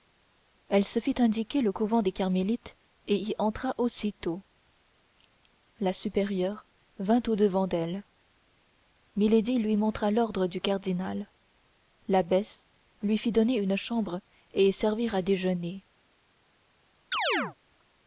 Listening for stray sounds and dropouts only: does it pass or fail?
fail